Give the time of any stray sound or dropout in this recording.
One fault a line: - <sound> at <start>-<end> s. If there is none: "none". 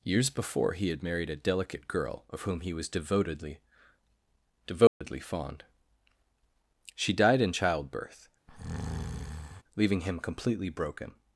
- dropout at 4.9-5.0 s
- breath at 8.5-9.6 s